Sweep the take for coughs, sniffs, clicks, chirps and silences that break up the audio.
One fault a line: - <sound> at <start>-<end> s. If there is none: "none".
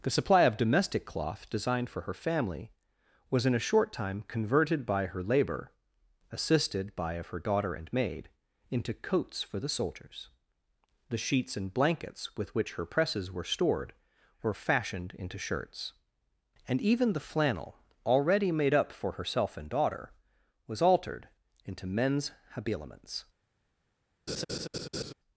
- laugh at 24.3-25.1 s